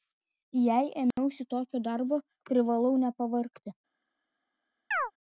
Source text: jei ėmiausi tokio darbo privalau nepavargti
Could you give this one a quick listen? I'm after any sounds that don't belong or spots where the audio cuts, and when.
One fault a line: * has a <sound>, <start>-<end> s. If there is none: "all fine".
* has a dropout, 1.1-1.2 s
* has a chirp, 4.9-5.1 s